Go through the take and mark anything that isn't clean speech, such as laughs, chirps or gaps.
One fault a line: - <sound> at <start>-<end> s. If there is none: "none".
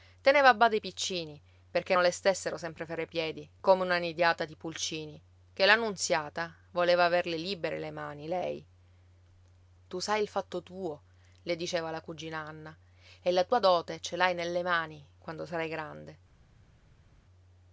none